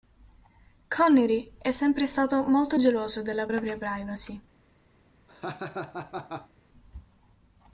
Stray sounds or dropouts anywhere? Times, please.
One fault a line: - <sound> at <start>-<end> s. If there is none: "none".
- laugh at 5.3-6.5 s